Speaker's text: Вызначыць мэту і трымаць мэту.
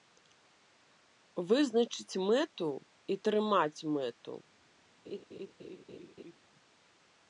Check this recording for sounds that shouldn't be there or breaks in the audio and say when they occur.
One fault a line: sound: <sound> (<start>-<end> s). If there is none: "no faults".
sound: laugh (5.0-6.4 s)